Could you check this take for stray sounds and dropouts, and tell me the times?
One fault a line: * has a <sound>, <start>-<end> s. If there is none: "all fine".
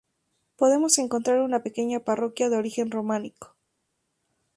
all fine